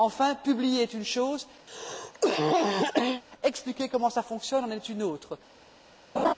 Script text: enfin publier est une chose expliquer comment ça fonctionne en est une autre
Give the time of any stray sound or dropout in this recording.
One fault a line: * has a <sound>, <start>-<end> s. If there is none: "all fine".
* has a cough, 1.7-3.2 s
* has a laugh, 6.2-6.3 s